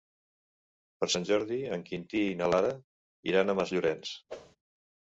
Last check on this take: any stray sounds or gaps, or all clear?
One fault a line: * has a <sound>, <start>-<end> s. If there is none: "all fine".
* has a whoosh, 4.3-4.6 s